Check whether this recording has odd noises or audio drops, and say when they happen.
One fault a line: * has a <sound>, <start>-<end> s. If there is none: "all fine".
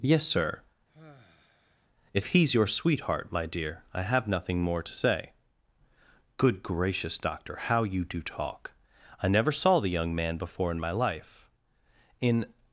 * has a sigh, 0.9-1.9 s